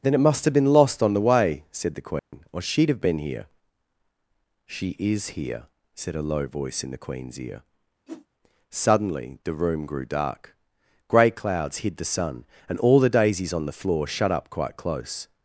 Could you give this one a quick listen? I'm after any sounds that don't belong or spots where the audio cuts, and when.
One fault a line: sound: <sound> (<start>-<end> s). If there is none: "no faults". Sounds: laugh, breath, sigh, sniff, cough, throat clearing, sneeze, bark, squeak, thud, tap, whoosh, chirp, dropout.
sound: dropout (2.2-2.3 s)
sound: whoosh (8.1-8.3 s)